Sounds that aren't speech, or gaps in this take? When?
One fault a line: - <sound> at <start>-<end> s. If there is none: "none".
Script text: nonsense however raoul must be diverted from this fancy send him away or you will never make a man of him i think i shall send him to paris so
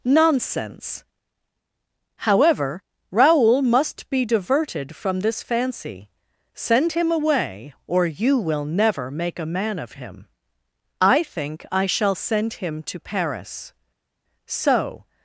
none